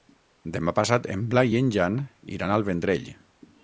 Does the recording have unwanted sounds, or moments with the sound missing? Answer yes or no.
no